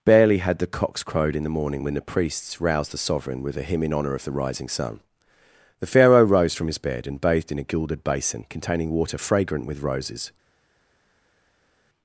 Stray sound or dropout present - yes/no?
no